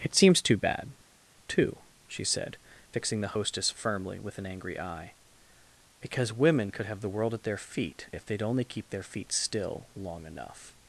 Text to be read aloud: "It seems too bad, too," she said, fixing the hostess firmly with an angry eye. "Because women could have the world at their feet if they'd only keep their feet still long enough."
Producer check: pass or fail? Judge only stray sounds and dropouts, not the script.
pass